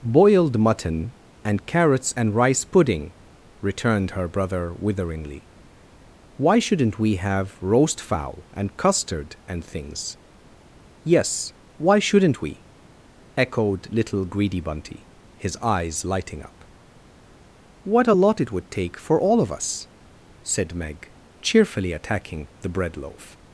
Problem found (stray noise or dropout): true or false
false